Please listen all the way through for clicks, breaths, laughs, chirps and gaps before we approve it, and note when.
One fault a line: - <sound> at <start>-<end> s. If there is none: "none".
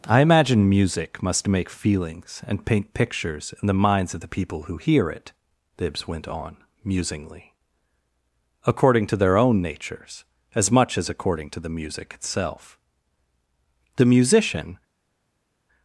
none